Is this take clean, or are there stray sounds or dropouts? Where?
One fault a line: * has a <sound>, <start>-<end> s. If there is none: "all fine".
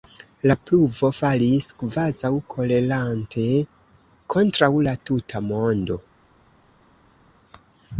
all fine